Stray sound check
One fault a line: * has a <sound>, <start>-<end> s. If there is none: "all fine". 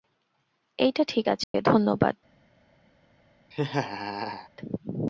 * has a dropout, 1.4-1.5 s
* has a laugh, 3.5-4.5 s